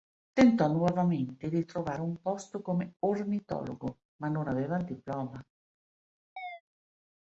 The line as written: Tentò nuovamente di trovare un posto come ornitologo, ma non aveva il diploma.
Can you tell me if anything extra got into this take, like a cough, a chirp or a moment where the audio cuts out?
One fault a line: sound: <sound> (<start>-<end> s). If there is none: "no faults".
sound: chirp (6.4-6.6 s)